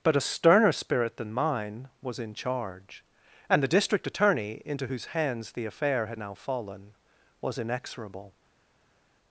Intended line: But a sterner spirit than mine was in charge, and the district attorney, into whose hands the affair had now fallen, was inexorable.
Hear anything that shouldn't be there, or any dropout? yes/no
no